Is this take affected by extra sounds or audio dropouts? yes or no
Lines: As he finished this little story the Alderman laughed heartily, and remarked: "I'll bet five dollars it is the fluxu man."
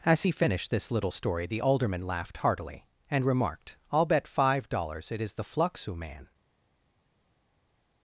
no